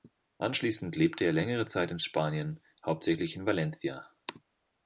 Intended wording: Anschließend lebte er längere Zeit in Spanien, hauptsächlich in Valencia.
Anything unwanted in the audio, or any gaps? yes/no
no